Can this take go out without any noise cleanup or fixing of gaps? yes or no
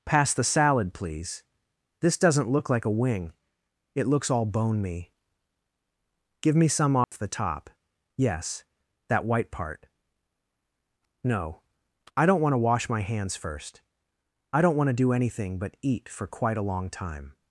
no